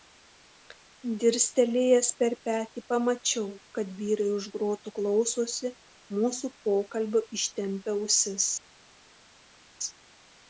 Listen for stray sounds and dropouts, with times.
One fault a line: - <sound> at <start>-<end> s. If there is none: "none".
none